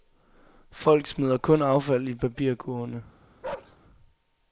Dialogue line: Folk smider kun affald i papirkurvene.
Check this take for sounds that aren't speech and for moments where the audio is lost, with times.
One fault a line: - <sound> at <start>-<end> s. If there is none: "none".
- bark at 3.4-3.8 s